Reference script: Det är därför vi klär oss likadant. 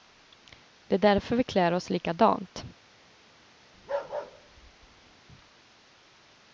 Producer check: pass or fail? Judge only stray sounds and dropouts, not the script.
fail